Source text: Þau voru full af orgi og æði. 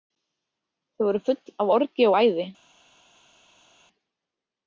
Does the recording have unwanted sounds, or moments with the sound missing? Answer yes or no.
no